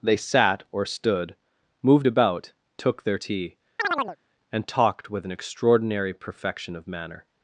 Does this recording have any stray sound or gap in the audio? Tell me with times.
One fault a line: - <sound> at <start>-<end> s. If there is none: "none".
- chirp at 3.8-4.2 s